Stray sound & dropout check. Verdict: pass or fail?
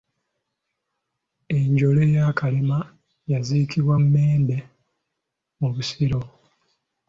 pass